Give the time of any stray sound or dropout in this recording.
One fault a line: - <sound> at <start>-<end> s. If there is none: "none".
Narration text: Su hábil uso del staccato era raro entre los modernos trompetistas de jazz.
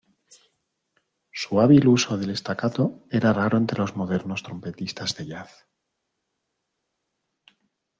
none